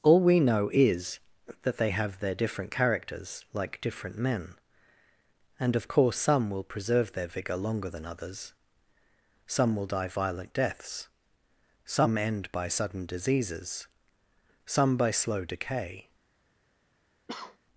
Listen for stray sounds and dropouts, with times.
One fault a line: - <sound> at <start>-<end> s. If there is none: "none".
- cough at 17.3-17.6 s